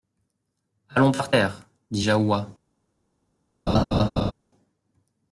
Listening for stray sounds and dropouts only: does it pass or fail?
fail